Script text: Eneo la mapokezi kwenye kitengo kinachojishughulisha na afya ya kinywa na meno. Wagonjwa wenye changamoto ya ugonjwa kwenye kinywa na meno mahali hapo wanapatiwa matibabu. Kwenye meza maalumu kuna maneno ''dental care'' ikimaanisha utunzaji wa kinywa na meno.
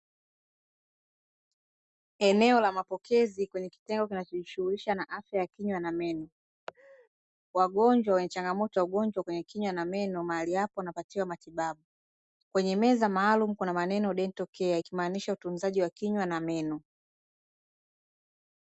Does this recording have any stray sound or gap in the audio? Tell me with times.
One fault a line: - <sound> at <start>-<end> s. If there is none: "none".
- laugh at 6.7-7.1 s